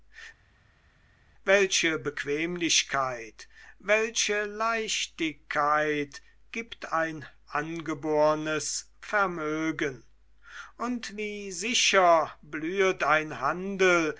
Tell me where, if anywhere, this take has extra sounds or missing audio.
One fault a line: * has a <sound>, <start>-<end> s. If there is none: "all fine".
all fine